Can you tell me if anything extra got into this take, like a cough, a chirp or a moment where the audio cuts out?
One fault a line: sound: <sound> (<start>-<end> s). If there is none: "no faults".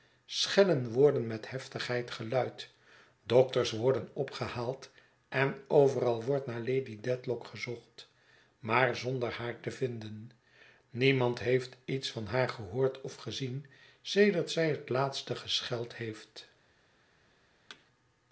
sound: thud (17.7-17.9 s)